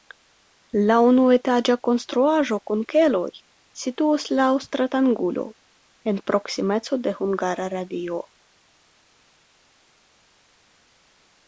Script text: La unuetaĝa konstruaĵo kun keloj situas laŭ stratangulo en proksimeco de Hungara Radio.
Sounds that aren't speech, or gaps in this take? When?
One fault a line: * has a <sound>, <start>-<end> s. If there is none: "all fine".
all fine